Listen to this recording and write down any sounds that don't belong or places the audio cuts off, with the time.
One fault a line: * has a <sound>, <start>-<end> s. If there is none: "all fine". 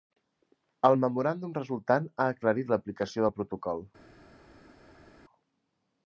all fine